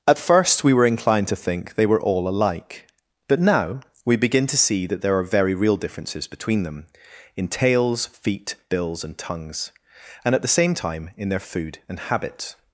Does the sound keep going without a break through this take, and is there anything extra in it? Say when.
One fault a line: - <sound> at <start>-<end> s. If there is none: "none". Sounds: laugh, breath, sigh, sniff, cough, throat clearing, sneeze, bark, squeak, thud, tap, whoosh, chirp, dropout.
none